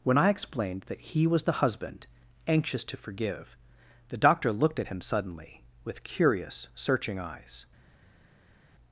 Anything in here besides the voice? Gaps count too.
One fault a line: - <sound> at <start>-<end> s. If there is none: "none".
none